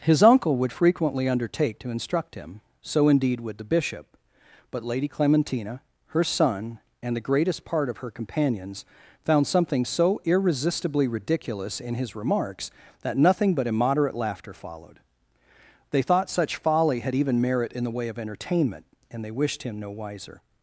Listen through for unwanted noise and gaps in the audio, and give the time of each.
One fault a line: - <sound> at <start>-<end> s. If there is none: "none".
none